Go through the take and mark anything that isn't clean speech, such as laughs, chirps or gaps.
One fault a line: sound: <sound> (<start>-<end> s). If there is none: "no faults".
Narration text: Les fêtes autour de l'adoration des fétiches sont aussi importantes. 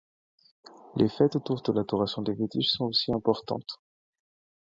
no faults